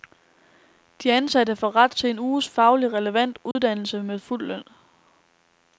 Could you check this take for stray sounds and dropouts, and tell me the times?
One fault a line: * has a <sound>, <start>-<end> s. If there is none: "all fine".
* has a dropout, 3.5-3.6 s